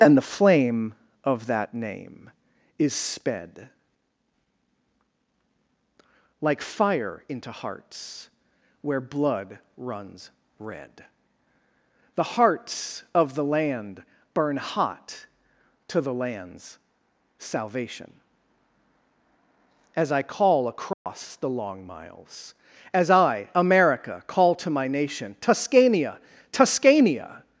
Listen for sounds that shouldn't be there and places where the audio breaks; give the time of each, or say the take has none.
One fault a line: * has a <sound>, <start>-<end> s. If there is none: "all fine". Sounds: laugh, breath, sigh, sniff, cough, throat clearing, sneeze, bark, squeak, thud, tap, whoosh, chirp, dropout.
* has a dropout, 20.9-21.1 s